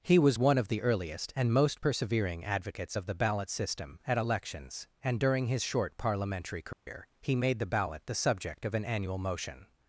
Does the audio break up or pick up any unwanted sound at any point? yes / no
yes